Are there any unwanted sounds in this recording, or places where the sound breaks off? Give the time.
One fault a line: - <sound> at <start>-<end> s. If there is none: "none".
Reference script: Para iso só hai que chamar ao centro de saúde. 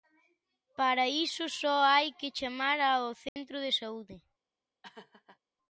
- dropout at 3.3-3.4 s
- laugh at 4.8-5.4 s